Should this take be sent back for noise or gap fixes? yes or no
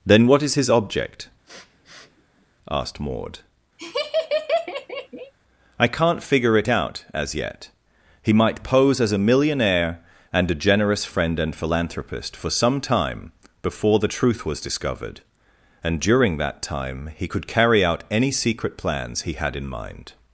yes